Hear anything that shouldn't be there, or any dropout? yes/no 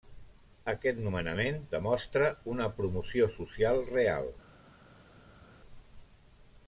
no